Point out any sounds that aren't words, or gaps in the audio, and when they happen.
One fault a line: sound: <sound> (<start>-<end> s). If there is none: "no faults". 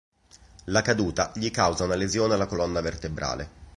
no faults